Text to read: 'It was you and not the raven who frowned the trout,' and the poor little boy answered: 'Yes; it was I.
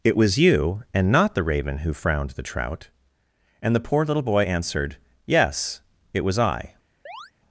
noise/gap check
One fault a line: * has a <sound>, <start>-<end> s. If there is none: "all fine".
* has a chirp, 7.1-7.3 s